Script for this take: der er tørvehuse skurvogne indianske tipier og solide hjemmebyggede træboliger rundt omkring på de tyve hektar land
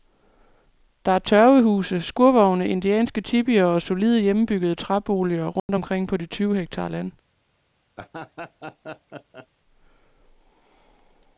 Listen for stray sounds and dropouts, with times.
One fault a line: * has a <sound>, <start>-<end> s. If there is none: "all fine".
* has a dropout, 5.6-5.7 s
* has a laugh, 8.0-9.5 s